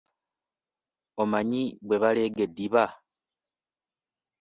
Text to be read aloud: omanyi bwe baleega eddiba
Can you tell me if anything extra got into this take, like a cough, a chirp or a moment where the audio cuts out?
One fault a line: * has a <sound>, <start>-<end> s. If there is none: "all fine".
all fine